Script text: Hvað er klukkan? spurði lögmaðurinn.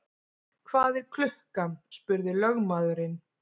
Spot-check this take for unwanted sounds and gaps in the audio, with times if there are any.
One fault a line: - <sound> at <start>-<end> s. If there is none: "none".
none